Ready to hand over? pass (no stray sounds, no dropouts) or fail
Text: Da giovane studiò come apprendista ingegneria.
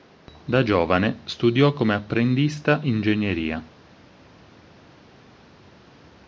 pass